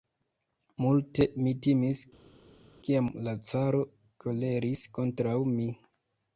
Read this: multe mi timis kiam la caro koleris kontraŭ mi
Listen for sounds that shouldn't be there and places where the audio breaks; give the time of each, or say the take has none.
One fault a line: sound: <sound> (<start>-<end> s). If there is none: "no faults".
no faults